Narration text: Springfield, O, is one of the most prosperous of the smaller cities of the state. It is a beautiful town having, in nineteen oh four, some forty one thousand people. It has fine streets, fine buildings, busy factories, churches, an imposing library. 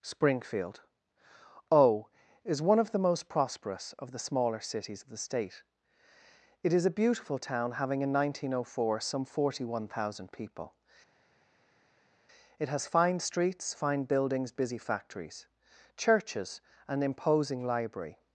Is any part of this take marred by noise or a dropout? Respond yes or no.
no